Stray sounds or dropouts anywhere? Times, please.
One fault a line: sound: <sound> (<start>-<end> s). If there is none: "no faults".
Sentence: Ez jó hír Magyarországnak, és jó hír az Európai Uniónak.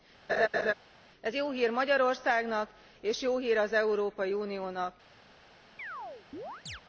sound: laugh (0.3-0.7 s)
sound: chirp (5.8-6.8 s)